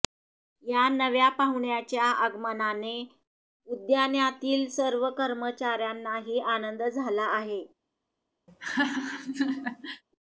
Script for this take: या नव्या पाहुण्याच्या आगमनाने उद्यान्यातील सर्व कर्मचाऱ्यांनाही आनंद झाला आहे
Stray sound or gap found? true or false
true